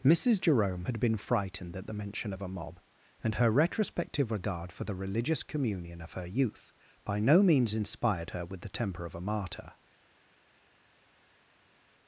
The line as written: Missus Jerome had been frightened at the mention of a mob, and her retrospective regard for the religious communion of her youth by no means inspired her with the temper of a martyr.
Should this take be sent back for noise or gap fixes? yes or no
no